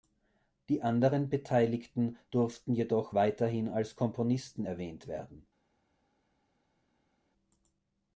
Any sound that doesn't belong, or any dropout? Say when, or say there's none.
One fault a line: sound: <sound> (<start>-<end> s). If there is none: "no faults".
no faults